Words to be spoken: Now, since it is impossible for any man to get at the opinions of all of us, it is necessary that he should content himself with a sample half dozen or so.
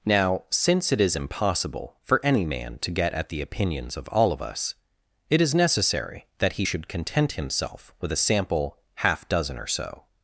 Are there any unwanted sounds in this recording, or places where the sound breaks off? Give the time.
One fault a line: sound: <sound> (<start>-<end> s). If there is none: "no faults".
no faults